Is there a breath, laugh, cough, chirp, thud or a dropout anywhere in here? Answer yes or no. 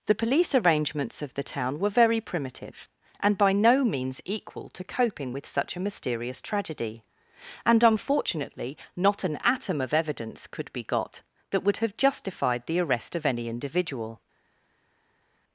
no